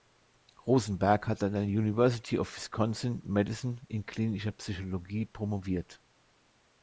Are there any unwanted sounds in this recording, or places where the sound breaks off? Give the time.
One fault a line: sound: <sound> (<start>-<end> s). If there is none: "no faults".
no faults